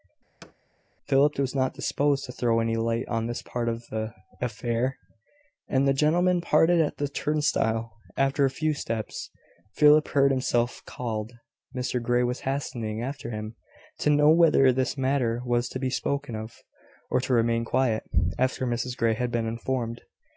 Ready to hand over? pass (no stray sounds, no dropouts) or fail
fail